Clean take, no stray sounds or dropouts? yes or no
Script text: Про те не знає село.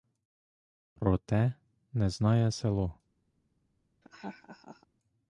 no